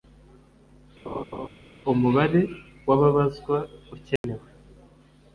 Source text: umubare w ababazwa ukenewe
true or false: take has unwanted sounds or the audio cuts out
true